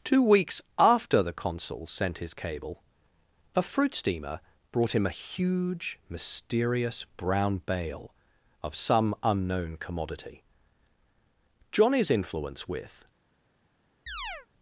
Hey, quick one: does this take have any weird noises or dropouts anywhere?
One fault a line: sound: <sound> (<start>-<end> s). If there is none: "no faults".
sound: chirp (14.1-14.5 s)